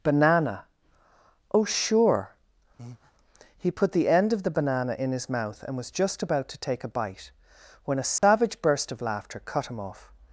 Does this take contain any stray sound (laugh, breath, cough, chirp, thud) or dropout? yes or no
yes